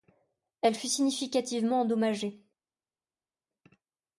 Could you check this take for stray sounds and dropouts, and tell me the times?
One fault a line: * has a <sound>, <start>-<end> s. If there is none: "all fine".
all fine